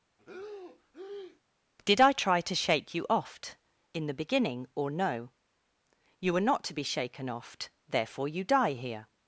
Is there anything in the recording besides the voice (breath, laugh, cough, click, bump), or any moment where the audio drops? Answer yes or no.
yes